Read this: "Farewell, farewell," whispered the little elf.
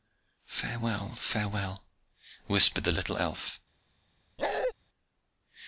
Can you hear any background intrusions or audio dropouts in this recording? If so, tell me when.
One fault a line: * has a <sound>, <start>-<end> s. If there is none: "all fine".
* has a bark, 4.4-4.7 s